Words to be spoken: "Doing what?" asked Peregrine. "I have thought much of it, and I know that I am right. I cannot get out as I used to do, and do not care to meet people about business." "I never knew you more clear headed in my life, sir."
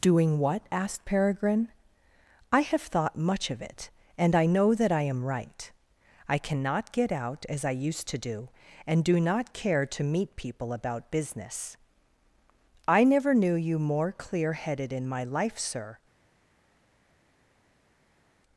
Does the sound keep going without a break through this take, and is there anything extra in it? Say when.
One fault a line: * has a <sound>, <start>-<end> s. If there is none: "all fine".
all fine